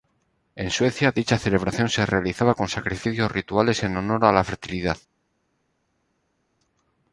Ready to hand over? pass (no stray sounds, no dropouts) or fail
pass